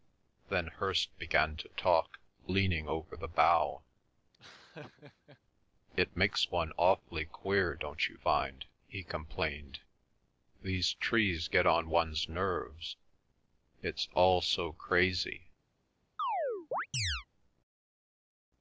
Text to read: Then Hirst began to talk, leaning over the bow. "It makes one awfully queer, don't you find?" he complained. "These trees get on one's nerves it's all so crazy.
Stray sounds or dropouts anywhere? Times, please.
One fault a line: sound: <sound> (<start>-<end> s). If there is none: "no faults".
sound: laugh (4.3-5.4 s)
sound: chirp (16.2-17.3 s)